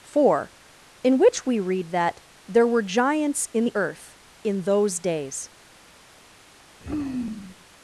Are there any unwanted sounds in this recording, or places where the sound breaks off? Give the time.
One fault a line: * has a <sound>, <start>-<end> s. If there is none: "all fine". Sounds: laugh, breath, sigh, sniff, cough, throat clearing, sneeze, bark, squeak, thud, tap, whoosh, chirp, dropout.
* has a sigh, 6.8-7.6 s